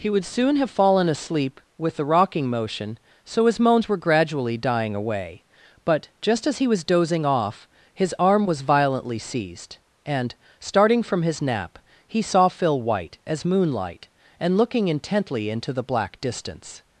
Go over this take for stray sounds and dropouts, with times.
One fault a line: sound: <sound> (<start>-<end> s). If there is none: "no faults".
no faults